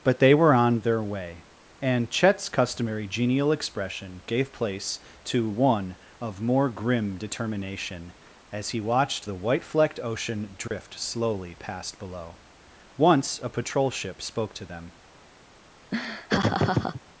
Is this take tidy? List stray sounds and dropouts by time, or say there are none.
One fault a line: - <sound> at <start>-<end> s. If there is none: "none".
- dropout at 10.7-10.7 s
- laugh at 15.9-17.0 s